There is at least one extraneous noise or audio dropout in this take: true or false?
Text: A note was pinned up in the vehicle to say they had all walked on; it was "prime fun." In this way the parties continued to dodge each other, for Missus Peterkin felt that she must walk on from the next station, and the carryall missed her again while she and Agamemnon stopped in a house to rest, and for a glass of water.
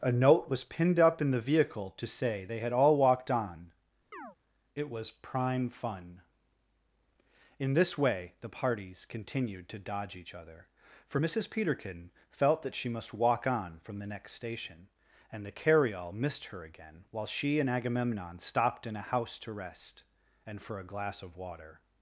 true